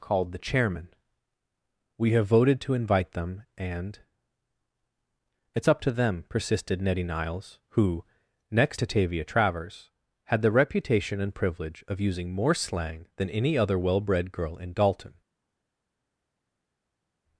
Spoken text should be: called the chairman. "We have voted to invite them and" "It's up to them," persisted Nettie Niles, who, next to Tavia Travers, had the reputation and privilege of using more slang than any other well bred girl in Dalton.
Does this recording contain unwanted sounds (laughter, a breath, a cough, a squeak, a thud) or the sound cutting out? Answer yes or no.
no